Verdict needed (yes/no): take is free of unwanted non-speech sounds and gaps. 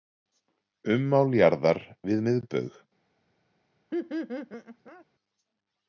no